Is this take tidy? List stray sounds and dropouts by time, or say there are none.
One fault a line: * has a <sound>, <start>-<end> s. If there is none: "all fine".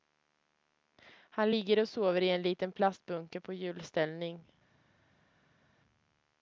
all fine